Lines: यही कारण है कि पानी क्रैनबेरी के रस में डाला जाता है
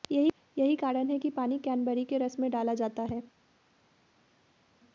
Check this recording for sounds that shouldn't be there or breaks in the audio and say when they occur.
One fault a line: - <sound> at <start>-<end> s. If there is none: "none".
none